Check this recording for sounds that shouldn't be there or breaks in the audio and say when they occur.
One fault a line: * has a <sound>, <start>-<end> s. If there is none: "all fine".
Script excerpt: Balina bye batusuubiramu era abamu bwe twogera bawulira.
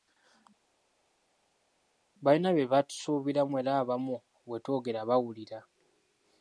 all fine